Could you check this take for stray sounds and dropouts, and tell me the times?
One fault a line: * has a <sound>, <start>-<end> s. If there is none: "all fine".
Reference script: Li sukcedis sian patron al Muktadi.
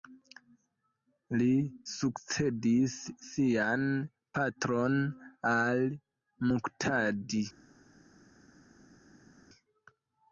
all fine